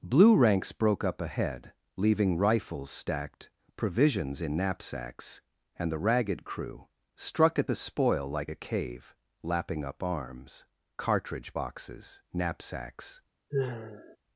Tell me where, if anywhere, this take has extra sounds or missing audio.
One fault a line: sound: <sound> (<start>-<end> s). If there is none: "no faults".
sound: sigh (13.5-14.2 s)